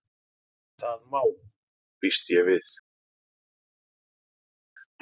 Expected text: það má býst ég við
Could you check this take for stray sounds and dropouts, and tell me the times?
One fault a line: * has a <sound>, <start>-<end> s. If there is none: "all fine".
all fine